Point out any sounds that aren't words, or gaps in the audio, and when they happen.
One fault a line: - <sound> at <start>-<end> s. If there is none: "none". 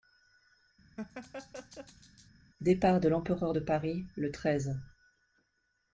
- laugh at 1.0-2.3 s